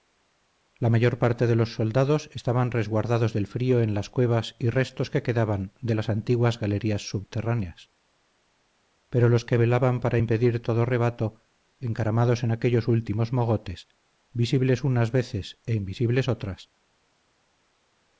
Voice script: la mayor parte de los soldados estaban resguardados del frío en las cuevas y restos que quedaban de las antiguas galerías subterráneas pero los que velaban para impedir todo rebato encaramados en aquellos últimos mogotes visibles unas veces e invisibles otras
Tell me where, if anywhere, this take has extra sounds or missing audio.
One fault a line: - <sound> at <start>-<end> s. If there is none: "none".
none